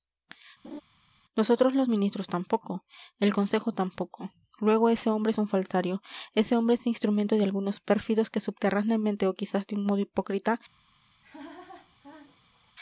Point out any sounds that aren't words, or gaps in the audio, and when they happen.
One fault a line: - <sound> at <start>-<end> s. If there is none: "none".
- laugh at 0.6-0.8 s
- laugh at 11.2-12.7 s